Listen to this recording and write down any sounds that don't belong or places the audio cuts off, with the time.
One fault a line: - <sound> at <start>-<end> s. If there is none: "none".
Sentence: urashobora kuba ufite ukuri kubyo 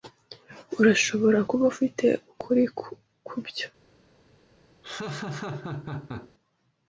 - laugh at 4.8-6.3 s